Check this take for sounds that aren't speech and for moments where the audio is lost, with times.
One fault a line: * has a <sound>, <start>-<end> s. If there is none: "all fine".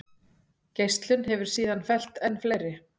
all fine